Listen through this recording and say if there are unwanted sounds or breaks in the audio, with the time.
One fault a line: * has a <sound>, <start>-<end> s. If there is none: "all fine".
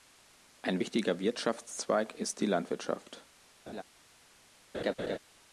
* has a laugh, 3.7-3.8 s
* has a laugh, 4.7-5.2 s